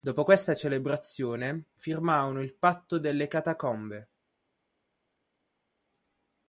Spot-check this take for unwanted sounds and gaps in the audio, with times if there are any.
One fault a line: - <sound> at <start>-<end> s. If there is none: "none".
none